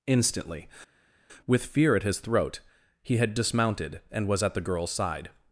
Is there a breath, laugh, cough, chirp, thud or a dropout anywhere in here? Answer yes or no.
no